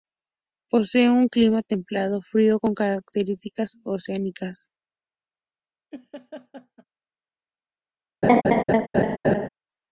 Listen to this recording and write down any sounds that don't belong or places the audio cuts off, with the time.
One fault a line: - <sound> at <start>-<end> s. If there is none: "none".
- laugh at 5.9-6.8 s
- laugh at 8.2-9.5 s